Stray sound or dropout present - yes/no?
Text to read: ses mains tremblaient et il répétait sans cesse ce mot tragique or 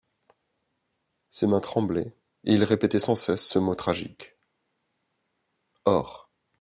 no